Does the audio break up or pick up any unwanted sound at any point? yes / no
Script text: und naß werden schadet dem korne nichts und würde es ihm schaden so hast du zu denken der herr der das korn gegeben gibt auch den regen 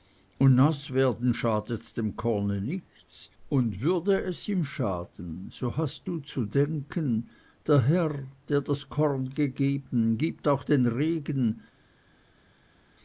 no